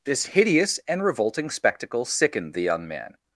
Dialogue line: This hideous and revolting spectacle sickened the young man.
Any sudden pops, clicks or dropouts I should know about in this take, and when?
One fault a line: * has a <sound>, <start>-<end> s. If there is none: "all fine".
all fine